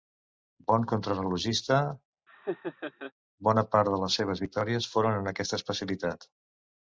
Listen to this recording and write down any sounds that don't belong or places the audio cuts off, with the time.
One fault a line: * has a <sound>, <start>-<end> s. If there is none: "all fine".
* has a laugh, 2.3-3.1 s